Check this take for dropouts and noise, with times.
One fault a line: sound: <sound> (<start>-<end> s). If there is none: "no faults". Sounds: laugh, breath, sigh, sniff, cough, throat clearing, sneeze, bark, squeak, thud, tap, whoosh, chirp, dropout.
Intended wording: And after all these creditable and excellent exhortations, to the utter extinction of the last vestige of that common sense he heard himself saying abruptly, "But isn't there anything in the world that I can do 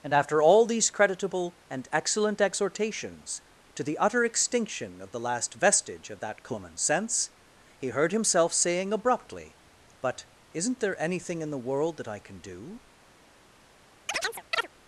sound: chirp (14.1-14.7 s)